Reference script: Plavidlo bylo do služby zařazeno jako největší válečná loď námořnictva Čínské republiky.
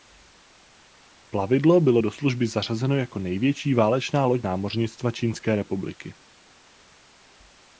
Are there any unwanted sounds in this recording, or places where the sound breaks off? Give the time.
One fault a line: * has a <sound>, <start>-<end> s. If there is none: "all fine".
all fine